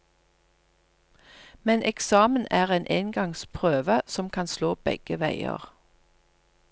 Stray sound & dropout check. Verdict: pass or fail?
pass